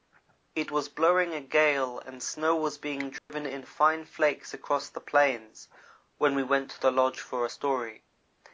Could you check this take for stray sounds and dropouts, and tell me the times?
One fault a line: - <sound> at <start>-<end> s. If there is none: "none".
- dropout at 3.2-3.3 s